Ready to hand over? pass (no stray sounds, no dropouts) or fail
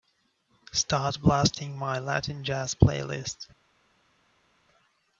pass